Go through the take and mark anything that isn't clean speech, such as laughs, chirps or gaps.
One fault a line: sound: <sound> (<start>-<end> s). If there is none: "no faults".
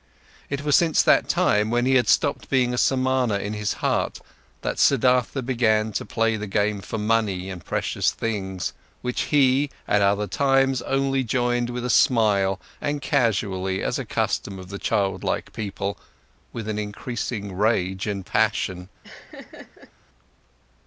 sound: laugh (19.0-19.9 s)